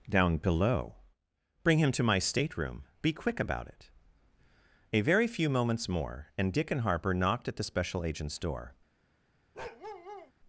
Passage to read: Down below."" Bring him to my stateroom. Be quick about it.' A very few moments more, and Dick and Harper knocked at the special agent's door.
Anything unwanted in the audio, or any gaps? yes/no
yes